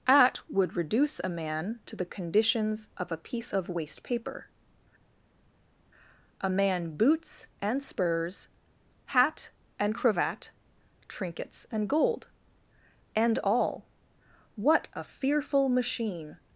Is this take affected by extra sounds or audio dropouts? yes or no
no